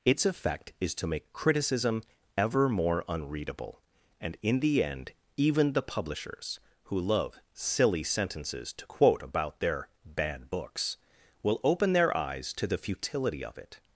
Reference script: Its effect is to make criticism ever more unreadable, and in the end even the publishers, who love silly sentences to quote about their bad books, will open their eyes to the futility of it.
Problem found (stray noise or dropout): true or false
false